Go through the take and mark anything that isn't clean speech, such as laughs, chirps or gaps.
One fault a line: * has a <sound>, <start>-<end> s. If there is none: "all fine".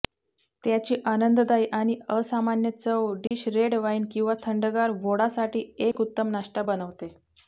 * has a dropout, 3.3-3.3 s
* has a dropout, 5.9-5.9 s